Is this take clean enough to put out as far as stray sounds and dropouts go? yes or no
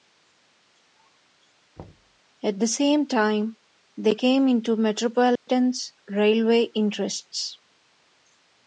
no